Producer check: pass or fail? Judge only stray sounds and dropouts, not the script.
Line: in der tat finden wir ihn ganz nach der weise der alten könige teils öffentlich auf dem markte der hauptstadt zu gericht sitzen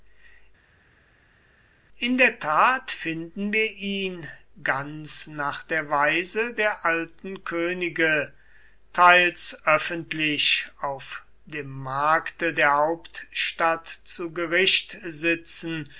pass